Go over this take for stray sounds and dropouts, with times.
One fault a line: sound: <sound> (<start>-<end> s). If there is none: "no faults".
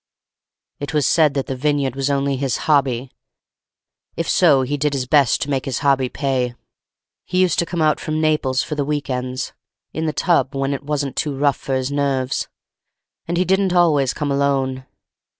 no faults